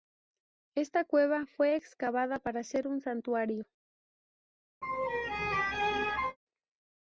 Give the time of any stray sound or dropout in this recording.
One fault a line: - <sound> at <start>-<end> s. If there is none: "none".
- laugh at 4.8-6.4 s